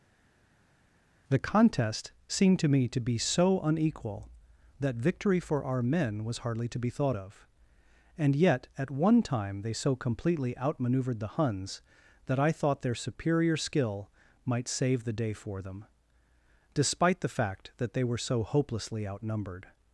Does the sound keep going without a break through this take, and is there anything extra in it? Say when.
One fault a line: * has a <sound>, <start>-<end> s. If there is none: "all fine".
all fine